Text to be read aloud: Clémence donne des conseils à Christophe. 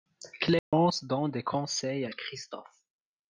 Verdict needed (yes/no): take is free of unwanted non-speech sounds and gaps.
no